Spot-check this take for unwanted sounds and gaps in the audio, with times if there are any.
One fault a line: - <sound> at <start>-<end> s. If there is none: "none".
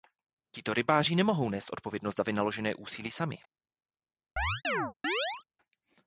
- chirp at 4.4-5.4 s